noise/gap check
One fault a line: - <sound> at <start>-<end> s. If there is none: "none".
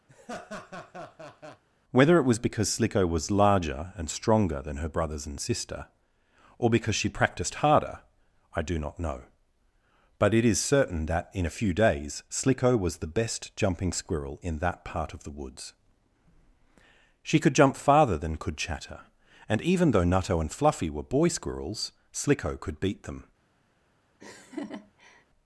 - laugh at 0.1-1.6 s
- laugh at 24.2-25.2 s